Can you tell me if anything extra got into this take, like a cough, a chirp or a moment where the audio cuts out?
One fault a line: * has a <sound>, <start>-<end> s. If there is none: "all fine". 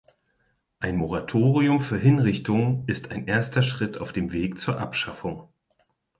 all fine